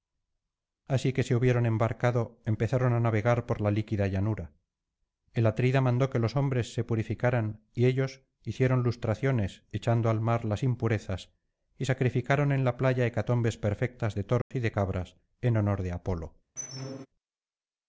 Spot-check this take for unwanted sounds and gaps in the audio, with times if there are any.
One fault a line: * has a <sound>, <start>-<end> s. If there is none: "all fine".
* has a dropout, 14.4-14.5 s
* has a squeak, 16.6-17.1 s